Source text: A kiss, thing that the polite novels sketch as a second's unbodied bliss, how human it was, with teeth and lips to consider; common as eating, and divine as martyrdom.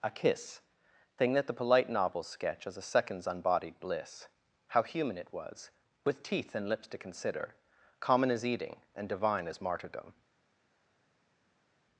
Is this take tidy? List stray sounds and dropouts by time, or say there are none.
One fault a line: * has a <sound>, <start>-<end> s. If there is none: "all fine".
all fine